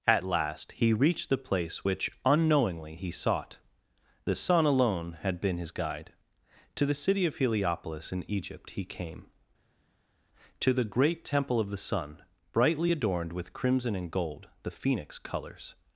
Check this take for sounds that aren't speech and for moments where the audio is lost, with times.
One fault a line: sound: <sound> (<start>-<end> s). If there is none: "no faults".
no faults